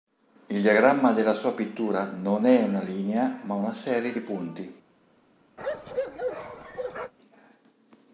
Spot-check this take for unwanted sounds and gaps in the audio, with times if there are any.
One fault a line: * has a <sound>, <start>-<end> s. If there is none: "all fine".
* has a bark, 5.6-7.1 s